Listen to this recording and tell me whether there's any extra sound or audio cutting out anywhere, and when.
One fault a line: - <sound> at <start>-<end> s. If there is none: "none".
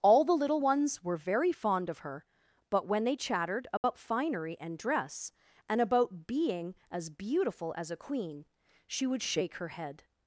- dropout at 3.8-3.8 s